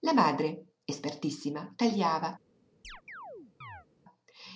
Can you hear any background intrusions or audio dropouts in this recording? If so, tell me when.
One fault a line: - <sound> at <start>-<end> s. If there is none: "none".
- chirp at 2.8-3.9 s